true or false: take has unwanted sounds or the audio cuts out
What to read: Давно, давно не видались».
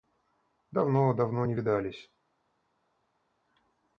false